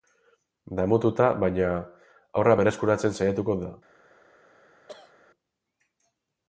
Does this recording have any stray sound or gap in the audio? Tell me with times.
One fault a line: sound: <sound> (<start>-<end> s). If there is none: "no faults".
sound: cough (4.9-5.1 s)